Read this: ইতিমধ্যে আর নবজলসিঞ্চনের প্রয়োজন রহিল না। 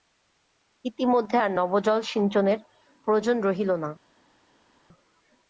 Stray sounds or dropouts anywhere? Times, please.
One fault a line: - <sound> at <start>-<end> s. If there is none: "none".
none